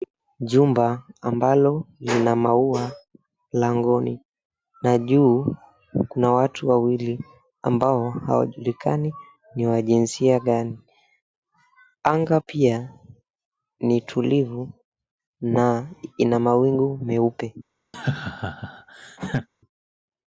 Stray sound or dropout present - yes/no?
yes